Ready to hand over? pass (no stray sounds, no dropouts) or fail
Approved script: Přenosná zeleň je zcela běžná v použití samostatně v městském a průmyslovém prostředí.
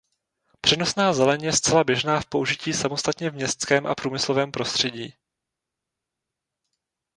pass